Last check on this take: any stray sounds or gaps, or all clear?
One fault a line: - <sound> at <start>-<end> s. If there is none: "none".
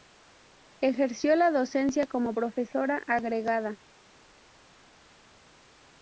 none